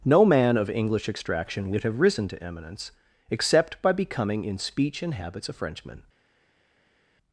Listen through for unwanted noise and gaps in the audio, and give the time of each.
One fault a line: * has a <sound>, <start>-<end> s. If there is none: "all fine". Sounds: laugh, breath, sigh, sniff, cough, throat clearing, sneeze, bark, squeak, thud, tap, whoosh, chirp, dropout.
all fine